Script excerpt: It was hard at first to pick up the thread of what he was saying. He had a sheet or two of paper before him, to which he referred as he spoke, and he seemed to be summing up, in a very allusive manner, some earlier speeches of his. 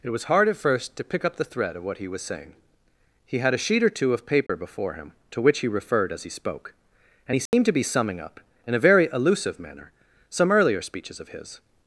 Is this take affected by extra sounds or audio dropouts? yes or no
yes